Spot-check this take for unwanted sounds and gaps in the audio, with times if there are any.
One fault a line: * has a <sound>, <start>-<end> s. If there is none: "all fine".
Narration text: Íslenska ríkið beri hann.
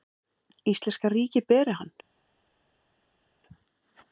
all fine